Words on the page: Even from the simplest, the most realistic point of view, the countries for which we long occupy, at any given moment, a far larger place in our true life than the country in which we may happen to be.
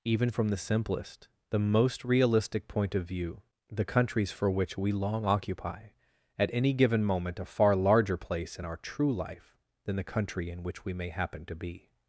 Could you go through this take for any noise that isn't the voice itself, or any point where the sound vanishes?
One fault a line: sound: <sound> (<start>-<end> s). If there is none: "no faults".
no faults